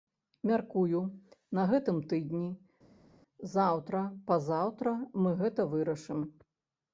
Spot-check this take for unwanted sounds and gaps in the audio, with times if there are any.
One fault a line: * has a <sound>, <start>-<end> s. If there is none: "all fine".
all fine